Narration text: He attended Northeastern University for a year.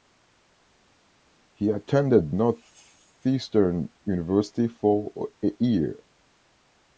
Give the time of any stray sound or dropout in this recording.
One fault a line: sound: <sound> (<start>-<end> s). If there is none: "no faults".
no faults